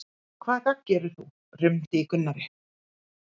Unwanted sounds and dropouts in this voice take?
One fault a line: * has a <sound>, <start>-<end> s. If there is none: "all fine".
all fine